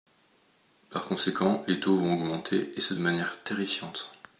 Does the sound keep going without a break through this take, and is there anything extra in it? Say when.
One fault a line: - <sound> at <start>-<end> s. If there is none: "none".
none